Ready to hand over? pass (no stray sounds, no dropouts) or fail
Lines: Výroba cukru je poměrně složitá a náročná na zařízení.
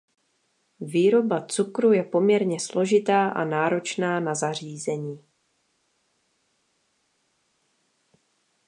pass